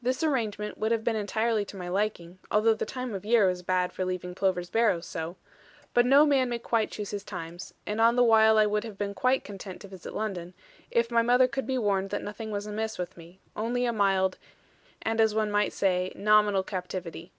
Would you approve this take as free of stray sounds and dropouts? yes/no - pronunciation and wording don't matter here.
yes